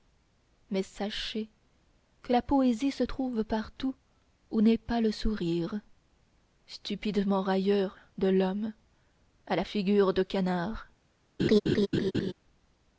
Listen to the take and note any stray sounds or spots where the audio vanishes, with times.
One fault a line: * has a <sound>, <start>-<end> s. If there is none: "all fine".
* has a laugh, 11.4-12.3 s